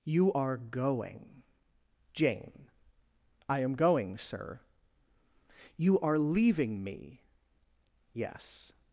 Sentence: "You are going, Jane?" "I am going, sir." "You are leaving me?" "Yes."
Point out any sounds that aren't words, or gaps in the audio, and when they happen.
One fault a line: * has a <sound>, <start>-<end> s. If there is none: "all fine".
all fine